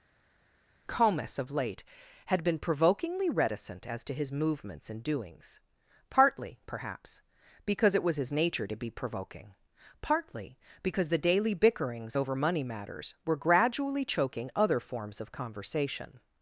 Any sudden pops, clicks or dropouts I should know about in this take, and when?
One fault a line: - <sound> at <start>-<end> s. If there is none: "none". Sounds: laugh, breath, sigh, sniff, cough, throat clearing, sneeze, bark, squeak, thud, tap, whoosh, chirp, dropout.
none